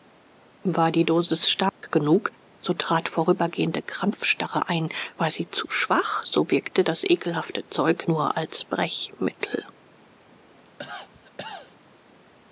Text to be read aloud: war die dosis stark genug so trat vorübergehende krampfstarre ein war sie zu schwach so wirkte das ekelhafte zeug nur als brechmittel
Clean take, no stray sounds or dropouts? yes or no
no